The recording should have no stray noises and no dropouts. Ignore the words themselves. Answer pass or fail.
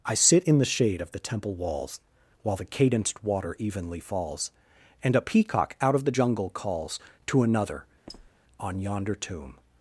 fail